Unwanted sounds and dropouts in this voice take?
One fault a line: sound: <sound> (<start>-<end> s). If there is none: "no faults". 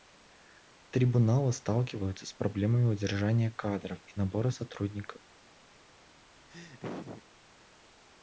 sound: laugh (6.5-7.2 s)